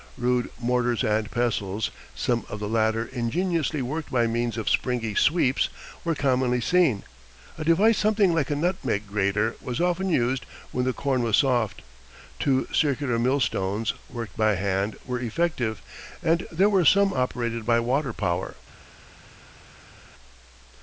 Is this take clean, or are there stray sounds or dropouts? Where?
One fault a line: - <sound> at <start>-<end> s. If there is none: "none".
none